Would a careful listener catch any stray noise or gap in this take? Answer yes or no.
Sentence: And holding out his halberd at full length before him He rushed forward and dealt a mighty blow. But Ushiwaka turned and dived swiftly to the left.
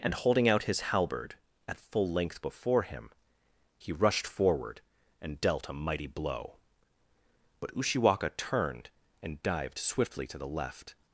no